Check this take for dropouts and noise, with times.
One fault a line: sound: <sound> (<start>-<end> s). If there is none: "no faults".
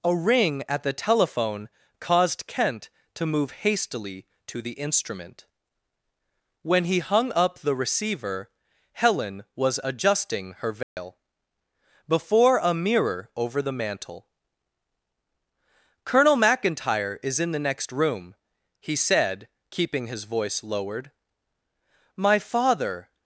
sound: dropout (10.8-11.0 s)